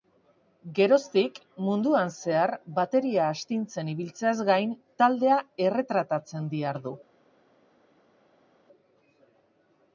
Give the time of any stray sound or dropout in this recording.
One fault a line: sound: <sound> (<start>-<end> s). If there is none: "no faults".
no faults